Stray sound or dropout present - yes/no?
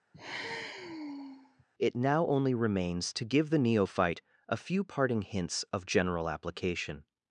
yes